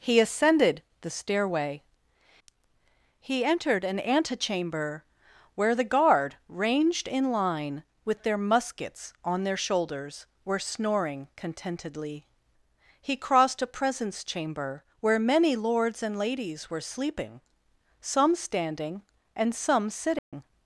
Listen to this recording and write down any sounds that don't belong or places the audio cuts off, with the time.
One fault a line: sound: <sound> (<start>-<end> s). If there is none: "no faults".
sound: dropout (20.2-20.3 s)